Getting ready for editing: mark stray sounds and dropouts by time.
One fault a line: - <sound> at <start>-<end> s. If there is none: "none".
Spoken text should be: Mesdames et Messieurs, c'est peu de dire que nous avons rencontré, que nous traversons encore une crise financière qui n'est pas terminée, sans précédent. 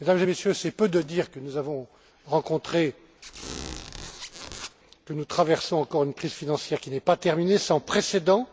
- squeak at 3.2-4.8 s